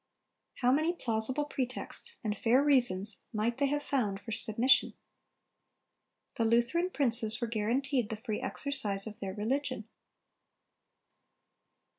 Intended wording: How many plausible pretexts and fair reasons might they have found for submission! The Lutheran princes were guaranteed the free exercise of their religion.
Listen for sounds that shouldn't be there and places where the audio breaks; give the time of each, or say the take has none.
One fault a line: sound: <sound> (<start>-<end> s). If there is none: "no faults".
no faults